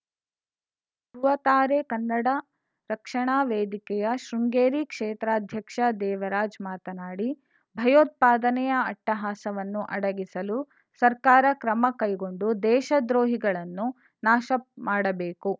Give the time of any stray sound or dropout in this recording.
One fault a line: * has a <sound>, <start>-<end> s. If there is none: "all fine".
all fine